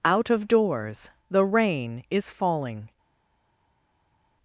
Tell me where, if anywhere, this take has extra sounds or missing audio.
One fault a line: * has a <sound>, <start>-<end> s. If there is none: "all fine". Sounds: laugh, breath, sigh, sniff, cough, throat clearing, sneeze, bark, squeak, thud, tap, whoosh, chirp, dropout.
all fine